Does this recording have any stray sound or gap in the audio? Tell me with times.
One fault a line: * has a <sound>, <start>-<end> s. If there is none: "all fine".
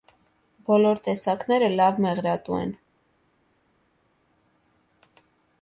all fine